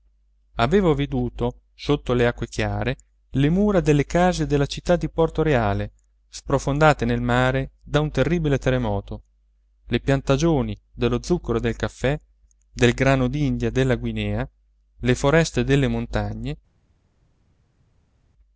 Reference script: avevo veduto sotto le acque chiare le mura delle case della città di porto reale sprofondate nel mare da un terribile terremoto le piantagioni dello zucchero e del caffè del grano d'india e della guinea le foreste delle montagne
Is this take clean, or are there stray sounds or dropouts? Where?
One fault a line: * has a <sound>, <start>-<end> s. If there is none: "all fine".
all fine